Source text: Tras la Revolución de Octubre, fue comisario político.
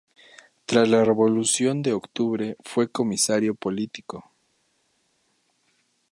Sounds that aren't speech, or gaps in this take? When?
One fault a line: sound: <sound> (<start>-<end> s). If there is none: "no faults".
no faults